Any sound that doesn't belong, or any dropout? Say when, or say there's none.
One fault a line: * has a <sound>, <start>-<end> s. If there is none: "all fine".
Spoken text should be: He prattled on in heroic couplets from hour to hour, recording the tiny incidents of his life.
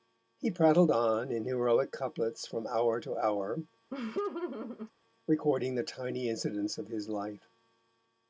* has a laugh, 3.9-4.9 s